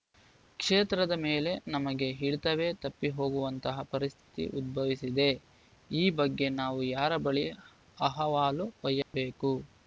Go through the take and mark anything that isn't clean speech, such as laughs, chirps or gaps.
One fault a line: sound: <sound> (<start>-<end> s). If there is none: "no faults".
sound: dropout (4.2-4.3 s)
sound: dropout (9.0-9.1 s)